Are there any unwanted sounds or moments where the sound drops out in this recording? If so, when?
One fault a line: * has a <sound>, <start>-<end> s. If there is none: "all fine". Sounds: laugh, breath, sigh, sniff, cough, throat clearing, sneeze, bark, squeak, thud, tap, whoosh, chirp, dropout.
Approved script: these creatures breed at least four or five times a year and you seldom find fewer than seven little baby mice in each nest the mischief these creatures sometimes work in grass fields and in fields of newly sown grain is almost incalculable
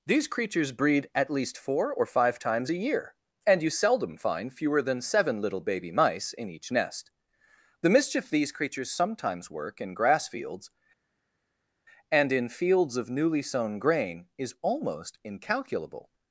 all fine